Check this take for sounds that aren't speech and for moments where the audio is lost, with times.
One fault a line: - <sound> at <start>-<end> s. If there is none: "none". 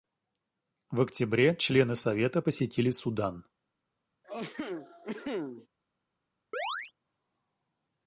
- cough at 4.2-5.7 s
- chirp at 6.5-6.9 s